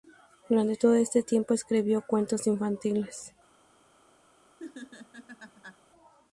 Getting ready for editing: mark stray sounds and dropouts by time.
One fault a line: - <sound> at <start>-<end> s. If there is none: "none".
- laugh at 4.6-5.8 s